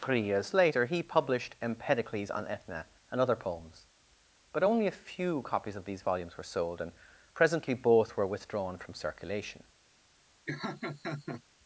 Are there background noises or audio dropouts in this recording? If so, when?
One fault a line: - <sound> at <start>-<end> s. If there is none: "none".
- laugh at 10.5-11.4 s